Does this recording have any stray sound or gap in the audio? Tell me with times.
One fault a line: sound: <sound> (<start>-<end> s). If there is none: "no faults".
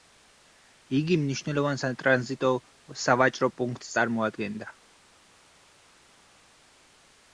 no faults